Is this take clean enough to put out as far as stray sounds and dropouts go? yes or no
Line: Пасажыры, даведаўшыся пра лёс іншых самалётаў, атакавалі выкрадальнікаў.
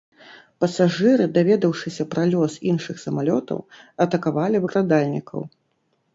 yes